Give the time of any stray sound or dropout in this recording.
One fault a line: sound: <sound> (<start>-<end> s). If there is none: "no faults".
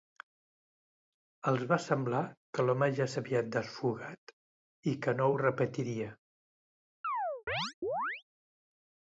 sound: chirp (7.0-8.2 s)